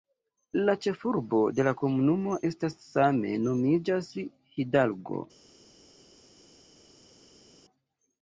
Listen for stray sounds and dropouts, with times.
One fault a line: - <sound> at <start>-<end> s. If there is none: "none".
none